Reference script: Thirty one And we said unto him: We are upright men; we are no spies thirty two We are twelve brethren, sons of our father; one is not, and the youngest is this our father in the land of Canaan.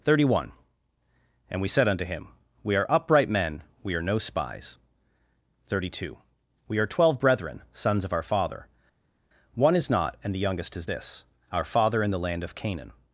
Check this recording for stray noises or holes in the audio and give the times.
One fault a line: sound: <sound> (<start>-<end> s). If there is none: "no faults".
no faults